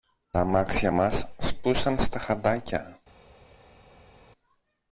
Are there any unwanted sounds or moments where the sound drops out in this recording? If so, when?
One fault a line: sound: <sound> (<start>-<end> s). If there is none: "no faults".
no faults